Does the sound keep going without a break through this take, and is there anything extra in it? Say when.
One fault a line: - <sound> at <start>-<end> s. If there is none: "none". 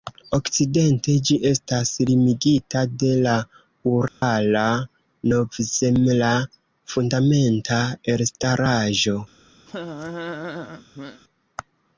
- dropout at 4.1-4.2 s
- laugh at 9.7-11.2 s